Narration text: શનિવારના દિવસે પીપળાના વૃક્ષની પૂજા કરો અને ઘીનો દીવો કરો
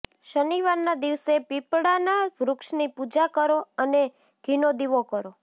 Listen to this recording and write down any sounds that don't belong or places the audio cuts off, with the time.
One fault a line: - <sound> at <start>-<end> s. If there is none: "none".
none